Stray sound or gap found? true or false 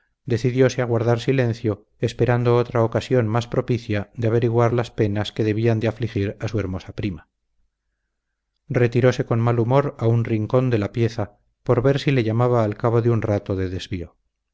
false